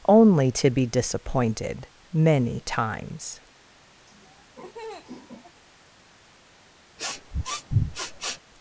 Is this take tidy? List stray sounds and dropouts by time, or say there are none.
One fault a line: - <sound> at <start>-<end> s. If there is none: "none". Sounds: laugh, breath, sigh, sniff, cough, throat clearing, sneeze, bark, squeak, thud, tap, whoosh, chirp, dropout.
- laugh at 4.1-5.6 s
- sniff at 7.0-8.4 s